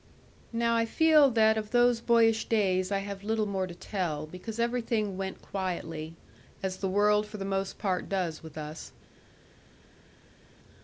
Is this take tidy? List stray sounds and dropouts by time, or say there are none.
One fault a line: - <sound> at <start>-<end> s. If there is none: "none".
none